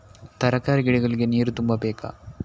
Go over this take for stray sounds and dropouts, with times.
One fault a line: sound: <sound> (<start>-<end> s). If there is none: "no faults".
no faults